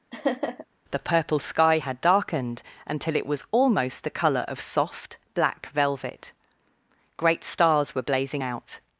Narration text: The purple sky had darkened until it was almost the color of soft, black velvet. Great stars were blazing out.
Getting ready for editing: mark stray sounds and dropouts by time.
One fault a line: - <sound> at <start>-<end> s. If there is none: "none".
- laugh at 0.1-0.7 s